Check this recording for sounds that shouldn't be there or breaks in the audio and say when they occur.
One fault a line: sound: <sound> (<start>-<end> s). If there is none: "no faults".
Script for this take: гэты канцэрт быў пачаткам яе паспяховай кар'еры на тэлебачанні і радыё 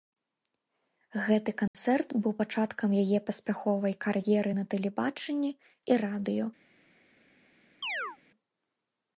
sound: dropout (1.7-1.7 s)
sound: chirp (7.8-8.2 s)